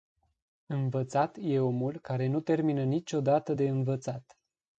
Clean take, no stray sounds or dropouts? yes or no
yes